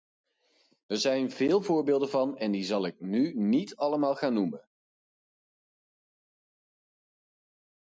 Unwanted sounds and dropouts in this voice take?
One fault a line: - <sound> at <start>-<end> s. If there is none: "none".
none